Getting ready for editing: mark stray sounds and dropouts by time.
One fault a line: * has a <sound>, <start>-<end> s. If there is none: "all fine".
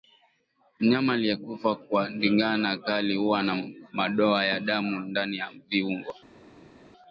all fine